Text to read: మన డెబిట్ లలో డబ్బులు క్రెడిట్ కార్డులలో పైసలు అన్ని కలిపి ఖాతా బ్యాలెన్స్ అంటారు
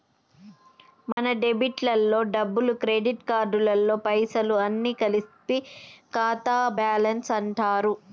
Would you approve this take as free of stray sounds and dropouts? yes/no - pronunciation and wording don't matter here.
no